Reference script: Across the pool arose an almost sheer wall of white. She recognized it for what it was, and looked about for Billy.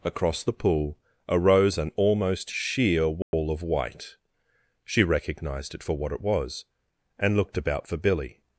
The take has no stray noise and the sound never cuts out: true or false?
false